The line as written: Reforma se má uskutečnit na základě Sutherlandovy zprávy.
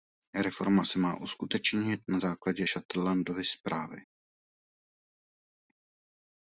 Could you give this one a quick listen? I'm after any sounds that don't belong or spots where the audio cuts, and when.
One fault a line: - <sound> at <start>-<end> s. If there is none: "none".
none